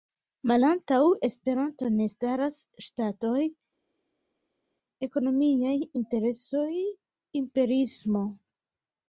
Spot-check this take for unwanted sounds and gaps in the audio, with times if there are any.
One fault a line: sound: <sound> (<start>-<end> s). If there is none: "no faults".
no faults